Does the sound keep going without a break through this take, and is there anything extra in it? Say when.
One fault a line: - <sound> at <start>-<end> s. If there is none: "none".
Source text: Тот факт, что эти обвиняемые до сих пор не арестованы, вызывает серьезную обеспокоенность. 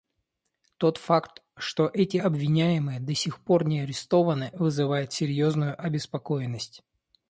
none